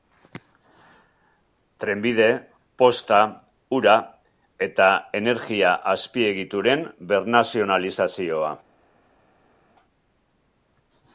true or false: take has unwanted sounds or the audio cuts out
false